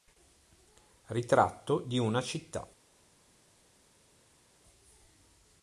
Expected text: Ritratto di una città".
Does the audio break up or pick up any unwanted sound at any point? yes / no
no